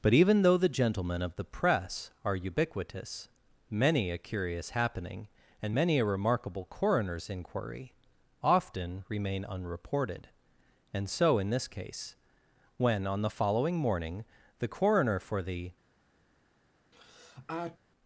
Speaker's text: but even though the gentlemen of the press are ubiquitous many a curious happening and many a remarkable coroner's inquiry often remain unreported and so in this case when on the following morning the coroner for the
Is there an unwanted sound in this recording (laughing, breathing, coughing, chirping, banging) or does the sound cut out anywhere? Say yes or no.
yes